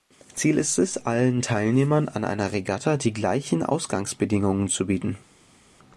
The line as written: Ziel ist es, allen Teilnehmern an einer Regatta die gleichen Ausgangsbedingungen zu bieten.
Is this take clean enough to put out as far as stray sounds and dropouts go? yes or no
yes